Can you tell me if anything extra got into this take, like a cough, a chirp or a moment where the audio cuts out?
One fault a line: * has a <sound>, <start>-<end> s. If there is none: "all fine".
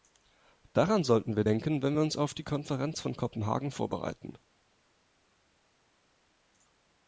all fine